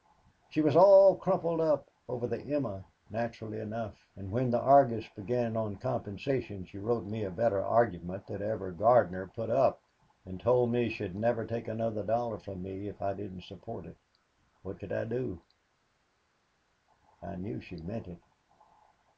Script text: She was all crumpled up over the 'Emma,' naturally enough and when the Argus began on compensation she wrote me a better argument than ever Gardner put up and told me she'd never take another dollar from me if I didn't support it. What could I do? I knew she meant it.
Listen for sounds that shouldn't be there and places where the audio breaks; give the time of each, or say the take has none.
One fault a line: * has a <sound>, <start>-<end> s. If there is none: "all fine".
all fine